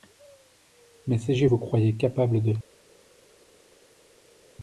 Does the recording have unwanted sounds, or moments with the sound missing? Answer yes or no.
no